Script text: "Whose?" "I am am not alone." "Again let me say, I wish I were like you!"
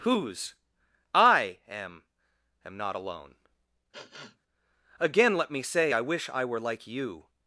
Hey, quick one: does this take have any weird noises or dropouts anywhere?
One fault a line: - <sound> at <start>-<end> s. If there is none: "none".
- sniff at 3.9-4.4 s